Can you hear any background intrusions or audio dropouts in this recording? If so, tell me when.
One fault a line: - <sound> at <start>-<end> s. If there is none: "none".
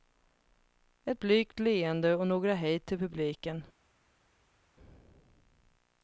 none